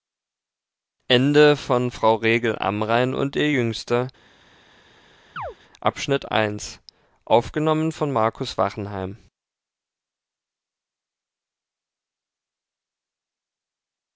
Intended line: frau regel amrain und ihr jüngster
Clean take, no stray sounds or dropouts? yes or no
no